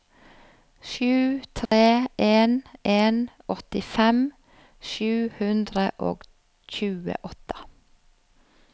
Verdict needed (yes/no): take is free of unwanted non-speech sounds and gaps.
no